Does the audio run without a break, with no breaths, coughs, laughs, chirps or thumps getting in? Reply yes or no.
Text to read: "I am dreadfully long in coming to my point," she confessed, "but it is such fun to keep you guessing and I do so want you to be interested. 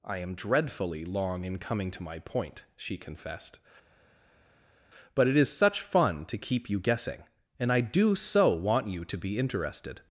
yes